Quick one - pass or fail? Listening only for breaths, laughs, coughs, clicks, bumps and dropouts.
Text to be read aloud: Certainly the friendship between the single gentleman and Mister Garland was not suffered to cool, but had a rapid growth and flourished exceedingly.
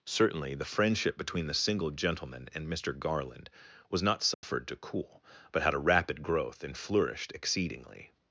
fail